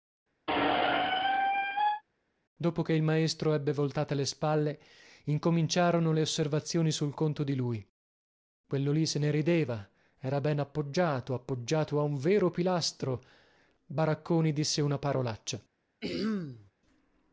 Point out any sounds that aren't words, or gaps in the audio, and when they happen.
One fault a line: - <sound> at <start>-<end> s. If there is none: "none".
- squeak at 0.5-2.0 s
- throat clearing at 16.0-16.7 s